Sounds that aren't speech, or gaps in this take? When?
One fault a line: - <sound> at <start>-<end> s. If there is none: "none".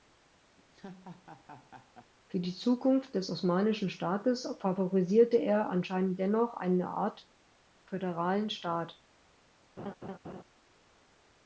- laugh at 0.6-2.1 s
- laugh at 9.8-10.4 s